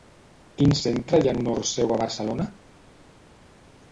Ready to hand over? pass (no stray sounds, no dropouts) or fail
pass